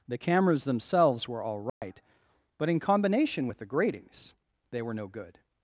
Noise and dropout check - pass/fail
fail